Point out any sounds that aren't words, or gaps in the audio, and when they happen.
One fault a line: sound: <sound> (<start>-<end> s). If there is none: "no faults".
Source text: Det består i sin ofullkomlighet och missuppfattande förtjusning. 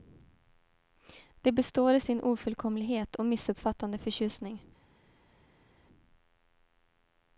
no faults